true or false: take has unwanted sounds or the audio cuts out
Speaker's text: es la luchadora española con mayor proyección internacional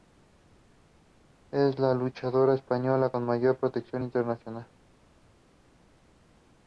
false